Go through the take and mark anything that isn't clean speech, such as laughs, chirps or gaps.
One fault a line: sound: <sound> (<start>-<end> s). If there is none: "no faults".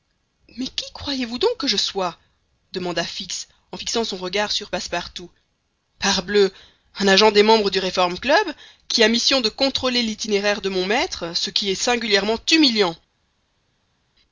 no faults